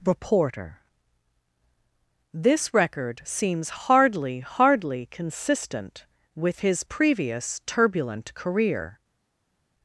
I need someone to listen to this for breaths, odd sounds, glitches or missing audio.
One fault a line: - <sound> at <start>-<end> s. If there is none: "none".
none